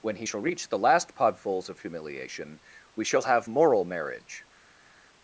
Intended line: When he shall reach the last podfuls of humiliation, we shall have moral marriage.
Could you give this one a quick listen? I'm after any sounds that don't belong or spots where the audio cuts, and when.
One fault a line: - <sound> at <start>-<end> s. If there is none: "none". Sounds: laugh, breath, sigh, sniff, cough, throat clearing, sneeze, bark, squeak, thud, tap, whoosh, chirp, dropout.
none